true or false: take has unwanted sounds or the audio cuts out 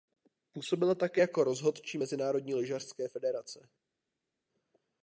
false